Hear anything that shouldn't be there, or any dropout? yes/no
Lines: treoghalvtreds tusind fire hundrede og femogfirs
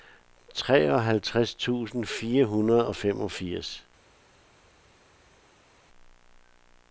no